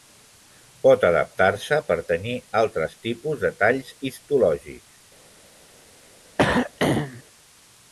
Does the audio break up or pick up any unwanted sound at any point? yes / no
yes